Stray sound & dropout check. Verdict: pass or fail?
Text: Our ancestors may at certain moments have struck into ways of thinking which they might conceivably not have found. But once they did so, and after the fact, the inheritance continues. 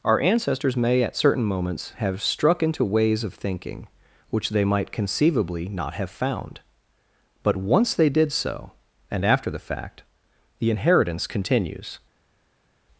pass